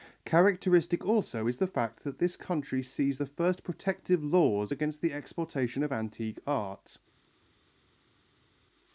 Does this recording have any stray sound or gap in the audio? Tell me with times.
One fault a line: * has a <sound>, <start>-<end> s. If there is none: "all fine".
all fine